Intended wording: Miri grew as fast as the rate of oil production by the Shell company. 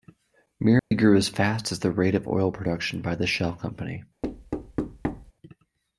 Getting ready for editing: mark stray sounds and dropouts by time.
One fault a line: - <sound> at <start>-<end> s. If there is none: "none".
- dropout at 0.8-0.9 s
- thud at 4.2-5.3 s